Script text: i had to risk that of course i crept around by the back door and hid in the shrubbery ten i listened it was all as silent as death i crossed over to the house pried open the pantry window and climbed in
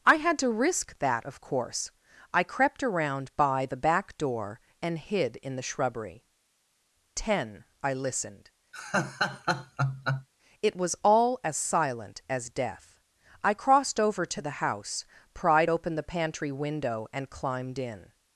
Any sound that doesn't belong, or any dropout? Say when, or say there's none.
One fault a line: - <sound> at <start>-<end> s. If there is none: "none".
- laugh at 8.7-10.3 s